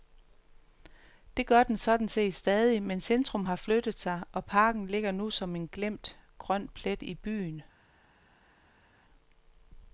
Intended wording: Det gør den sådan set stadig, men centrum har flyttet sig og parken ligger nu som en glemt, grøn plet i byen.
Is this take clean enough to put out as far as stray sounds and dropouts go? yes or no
yes